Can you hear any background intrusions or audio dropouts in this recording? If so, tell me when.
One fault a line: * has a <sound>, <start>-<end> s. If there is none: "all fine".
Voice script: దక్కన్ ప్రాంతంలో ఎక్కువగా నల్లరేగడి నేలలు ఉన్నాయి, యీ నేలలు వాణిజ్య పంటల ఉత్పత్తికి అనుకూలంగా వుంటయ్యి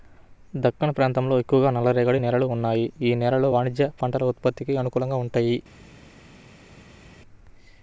all fine